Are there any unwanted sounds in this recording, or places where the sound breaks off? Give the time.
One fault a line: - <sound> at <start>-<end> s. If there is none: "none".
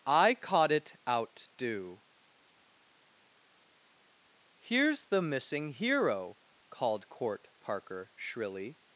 none